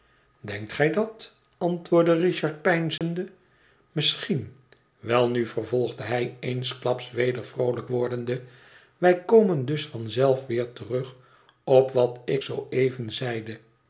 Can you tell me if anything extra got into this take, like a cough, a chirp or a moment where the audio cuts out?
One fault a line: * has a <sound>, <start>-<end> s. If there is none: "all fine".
* has a dropout, 3.0-3.0 s